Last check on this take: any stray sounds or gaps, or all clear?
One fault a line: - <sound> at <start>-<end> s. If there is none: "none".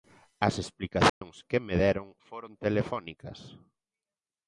- dropout at 1.1-1.2 s